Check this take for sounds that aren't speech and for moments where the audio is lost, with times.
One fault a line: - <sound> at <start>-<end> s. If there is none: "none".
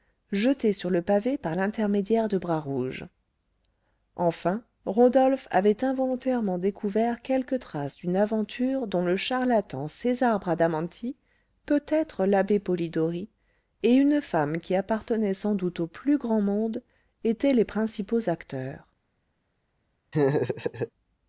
- laugh at 20.1-20.9 s